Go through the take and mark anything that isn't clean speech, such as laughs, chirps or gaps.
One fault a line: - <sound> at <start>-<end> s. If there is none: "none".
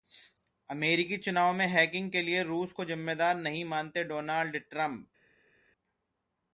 none